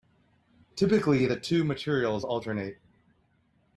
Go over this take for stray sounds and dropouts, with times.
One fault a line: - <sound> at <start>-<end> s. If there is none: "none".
none